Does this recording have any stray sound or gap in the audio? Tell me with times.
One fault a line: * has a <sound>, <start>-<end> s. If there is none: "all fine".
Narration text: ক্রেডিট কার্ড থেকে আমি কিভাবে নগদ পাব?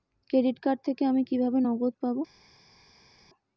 all fine